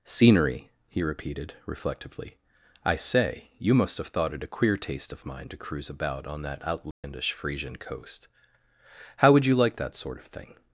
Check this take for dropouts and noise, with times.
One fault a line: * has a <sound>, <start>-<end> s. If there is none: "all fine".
* has a dropout, 6.9-7.0 s